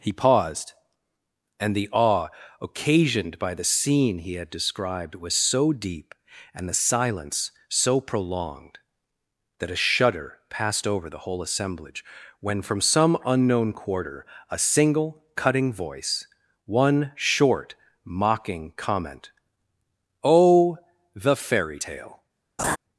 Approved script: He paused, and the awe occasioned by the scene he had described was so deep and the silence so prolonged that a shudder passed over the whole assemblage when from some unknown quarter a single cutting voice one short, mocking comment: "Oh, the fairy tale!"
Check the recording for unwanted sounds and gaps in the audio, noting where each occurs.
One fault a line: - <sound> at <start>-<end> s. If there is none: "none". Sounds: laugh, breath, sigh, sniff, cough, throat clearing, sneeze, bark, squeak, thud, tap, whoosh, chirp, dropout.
- laugh at 22.6-22.8 s